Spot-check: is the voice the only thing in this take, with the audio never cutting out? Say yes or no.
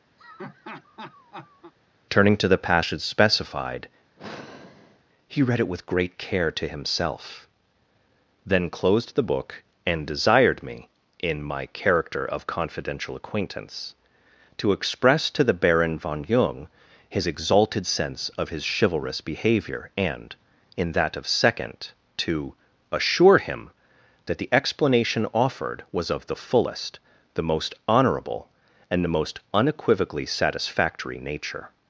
no